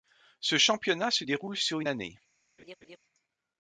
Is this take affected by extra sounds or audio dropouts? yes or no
yes